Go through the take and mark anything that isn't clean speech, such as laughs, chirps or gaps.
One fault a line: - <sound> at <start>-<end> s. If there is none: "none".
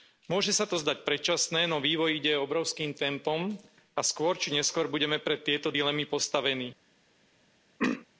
- throat clearing at 7.8-8.1 s